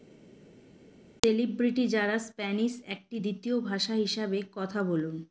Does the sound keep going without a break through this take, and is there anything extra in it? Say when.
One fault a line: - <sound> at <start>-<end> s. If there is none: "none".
none